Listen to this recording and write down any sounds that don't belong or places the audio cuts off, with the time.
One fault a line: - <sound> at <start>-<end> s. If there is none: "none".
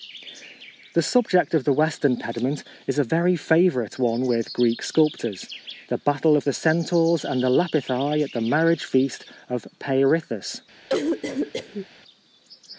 - cough at 10.9-11.9 s